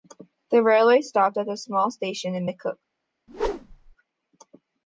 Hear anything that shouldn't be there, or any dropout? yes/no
yes